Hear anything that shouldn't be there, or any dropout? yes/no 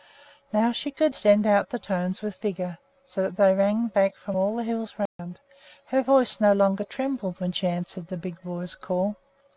yes